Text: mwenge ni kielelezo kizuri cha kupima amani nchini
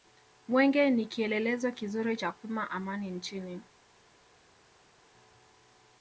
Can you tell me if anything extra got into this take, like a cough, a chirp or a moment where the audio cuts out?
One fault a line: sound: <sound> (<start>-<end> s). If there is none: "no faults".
no faults